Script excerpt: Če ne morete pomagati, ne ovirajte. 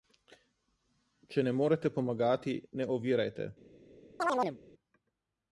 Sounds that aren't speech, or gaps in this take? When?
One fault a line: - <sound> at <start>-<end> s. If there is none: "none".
- chirp at 4.2-4.6 s